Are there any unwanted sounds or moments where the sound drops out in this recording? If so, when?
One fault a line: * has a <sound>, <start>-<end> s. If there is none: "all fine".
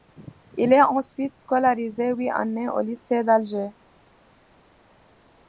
all fine